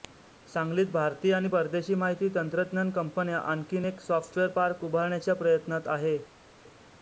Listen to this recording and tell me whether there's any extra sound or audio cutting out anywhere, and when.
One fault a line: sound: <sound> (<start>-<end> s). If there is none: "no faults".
no faults